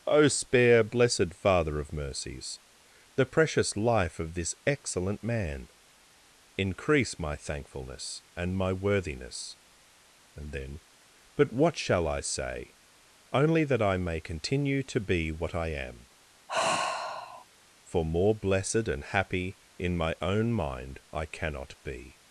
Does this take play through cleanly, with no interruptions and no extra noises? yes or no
no